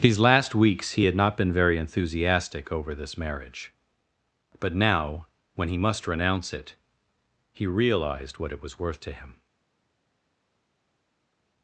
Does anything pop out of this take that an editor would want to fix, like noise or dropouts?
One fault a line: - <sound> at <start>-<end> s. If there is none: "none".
none